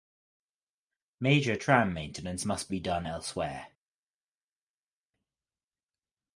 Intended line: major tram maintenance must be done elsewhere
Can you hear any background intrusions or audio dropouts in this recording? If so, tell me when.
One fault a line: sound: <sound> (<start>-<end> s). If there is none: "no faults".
no faults